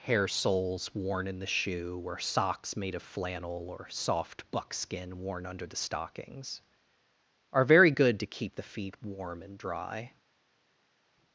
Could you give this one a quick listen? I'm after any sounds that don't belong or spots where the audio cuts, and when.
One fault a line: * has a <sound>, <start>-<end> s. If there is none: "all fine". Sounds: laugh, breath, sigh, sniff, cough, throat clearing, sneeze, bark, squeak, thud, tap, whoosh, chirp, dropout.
all fine